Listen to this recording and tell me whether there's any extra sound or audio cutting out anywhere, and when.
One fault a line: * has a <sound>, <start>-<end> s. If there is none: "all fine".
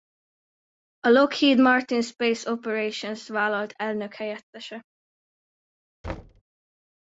* has a thud, 6.0-6.4 s